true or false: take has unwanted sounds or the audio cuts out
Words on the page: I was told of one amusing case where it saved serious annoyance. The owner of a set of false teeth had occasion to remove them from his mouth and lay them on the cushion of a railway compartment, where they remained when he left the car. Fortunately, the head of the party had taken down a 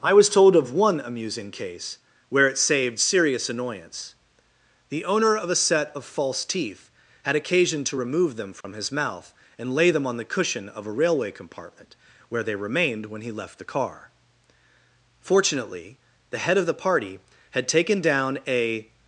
true